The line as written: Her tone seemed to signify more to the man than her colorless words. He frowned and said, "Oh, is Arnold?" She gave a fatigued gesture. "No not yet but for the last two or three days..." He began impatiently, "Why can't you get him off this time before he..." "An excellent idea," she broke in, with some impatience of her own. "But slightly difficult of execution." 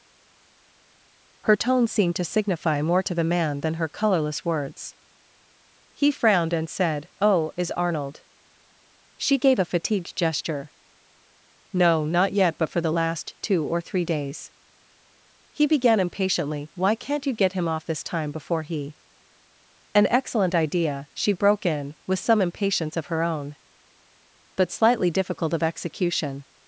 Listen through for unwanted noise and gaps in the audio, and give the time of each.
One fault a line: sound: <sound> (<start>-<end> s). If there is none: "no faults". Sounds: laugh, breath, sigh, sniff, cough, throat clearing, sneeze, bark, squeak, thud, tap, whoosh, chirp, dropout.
no faults